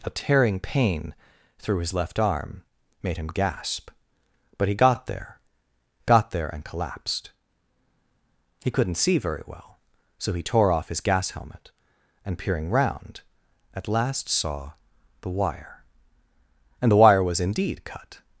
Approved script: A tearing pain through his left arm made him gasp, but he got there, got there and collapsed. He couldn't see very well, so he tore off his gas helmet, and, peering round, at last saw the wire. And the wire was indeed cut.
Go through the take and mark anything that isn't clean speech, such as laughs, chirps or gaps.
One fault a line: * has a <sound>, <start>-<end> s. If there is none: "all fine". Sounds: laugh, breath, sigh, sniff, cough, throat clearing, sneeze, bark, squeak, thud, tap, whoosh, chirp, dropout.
all fine